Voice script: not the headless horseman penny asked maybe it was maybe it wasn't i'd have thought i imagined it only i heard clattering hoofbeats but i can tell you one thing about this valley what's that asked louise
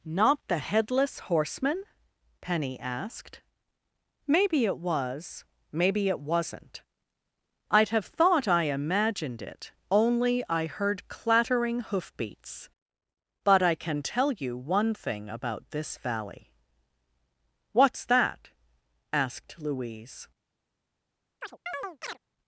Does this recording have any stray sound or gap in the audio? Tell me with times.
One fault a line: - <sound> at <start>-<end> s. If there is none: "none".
- chirp at 21.4-22.2 s